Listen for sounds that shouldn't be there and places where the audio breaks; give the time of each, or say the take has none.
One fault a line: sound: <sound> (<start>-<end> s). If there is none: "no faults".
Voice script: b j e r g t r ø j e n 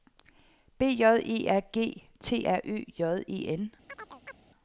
sound: chirp (3.9-4.4 s)